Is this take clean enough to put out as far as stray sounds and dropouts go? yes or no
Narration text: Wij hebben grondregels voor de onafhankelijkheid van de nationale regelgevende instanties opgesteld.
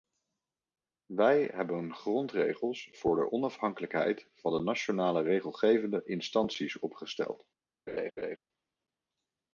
no